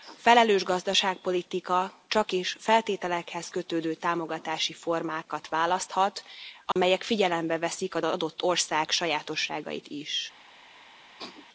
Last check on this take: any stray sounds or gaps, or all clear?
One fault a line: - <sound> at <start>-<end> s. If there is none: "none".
- dropout at 6.7-6.8 s
- sneeze at 11.2-11.5 s